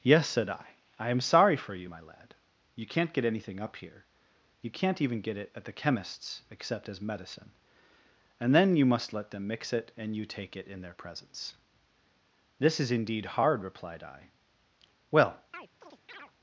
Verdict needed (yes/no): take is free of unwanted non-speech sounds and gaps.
no